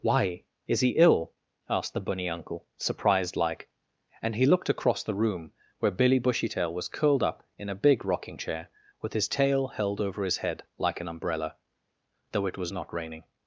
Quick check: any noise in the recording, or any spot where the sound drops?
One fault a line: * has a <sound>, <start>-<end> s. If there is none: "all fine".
all fine